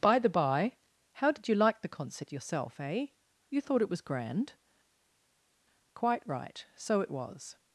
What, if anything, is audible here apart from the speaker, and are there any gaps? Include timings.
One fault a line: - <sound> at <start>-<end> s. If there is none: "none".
none